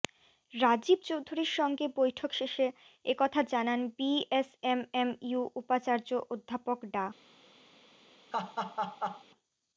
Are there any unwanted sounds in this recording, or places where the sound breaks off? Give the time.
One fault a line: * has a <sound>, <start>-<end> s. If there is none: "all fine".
* has a laugh, 8.3-9.2 s